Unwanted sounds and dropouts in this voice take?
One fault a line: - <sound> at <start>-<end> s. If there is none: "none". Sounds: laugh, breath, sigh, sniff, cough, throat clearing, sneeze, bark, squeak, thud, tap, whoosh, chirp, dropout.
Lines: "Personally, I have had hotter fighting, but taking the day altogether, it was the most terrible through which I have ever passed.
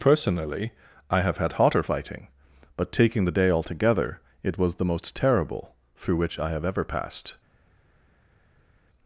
none